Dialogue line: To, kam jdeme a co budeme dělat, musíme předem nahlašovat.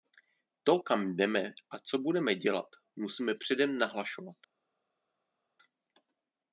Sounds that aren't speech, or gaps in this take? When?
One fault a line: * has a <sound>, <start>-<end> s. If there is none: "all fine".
all fine